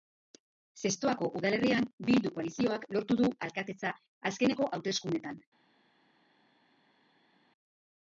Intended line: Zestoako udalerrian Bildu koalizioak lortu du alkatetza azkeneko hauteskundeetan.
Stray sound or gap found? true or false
false